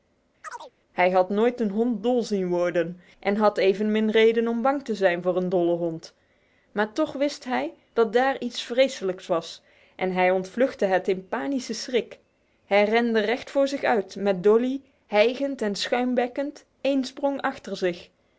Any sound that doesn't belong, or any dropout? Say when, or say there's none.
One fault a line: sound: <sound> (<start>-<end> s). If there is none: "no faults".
sound: chirp (0.4-0.7 s)